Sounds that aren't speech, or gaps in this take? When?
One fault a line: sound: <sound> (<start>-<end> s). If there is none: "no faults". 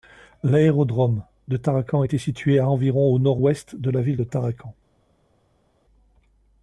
no faults